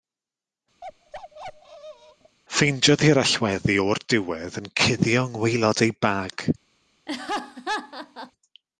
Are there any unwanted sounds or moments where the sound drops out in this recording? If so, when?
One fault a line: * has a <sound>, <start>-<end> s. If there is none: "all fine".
* has a bark, 0.8-2.4 s
* has a laugh, 7.1-8.3 s